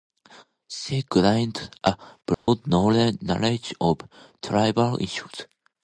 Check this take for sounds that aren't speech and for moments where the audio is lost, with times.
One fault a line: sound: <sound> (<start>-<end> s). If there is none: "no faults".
sound: dropout (2.3-2.5 s)